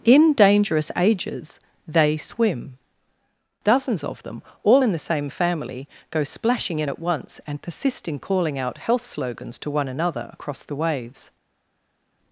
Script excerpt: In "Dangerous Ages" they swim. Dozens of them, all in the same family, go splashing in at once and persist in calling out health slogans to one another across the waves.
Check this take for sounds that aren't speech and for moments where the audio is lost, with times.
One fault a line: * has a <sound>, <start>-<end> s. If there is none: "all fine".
all fine